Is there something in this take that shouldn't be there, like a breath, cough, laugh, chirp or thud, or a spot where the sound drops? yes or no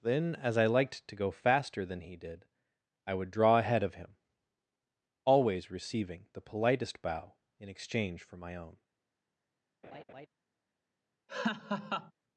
yes